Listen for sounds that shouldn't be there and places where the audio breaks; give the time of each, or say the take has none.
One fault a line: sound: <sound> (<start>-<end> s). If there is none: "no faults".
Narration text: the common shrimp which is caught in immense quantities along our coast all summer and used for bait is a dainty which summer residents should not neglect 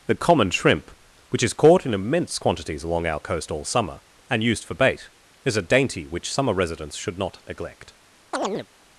sound: chirp (8.3-8.7 s)